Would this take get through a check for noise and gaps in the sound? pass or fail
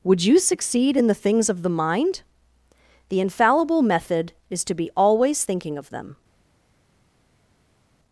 pass